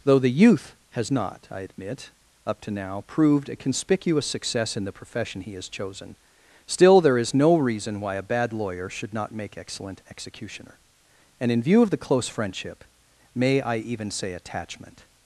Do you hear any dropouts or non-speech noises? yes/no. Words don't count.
no